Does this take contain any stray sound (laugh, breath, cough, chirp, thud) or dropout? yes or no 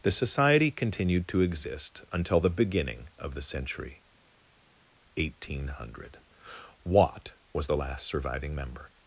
no